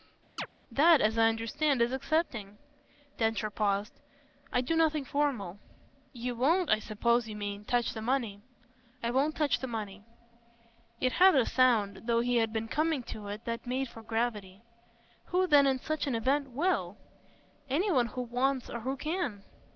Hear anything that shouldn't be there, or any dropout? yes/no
yes